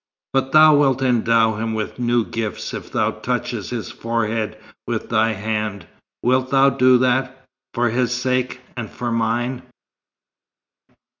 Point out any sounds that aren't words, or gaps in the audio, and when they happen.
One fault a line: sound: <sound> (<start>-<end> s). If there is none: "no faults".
no faults